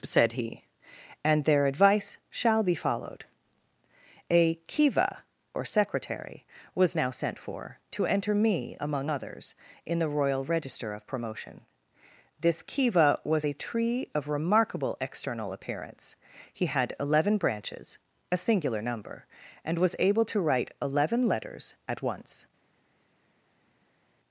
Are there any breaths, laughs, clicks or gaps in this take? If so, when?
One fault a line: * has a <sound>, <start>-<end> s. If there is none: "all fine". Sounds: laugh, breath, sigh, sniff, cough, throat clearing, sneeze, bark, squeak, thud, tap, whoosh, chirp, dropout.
all fine